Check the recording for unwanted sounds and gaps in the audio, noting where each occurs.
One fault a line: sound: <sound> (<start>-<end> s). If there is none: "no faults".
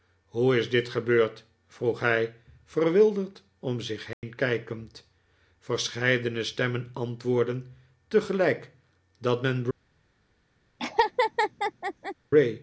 sound: dropout (4.1-4.2 s)
sound: laugh (10.8-12.1 s)